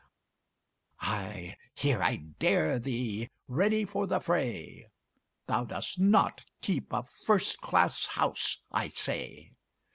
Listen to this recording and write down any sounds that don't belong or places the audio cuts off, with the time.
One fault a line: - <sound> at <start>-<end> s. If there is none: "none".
none